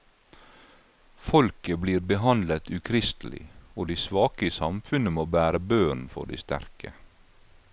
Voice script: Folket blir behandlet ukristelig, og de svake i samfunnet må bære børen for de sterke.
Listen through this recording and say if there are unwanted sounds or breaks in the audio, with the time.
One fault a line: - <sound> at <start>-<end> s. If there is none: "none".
none